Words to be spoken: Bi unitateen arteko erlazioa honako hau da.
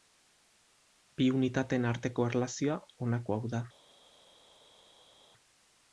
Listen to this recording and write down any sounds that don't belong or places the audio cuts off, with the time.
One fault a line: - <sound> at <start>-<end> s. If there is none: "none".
none